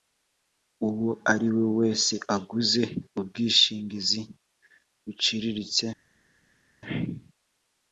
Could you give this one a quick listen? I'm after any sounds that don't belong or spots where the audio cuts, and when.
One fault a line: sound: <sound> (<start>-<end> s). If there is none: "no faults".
no faults